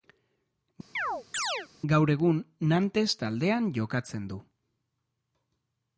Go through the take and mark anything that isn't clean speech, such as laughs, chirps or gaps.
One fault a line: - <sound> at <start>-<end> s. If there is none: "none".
- chirp at 1.0-1.7 s